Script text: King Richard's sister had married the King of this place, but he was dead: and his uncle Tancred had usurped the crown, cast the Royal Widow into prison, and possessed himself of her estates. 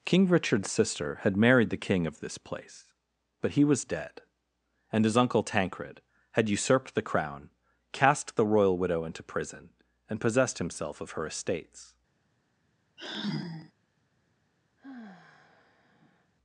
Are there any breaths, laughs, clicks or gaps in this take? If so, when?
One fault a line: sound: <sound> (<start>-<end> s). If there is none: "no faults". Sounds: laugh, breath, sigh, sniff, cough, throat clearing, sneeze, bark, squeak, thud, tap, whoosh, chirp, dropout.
sound: sigh (13.0-13.7 s)
sound: sigh (14.8-16.3 s)